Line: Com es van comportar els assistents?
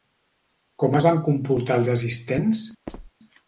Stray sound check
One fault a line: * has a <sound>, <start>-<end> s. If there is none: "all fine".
* has a squeak, 2.9-3.1 s